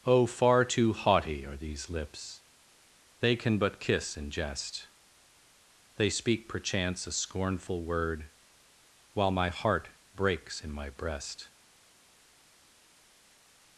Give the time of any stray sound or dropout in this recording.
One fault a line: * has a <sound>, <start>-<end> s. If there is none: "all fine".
all fine